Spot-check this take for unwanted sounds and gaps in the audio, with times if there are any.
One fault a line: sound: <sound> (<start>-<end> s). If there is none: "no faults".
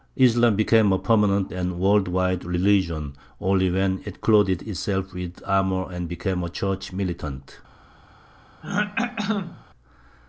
sound: throat clearing (8.6-9.6 s)